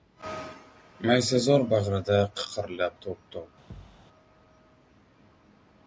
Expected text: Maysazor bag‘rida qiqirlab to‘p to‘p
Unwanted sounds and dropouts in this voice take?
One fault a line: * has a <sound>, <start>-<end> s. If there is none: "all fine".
* has a thud, 3.7-4.1 s